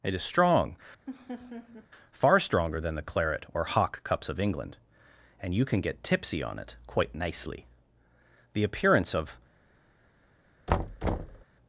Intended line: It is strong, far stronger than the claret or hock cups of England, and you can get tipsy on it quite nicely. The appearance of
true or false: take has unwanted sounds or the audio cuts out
true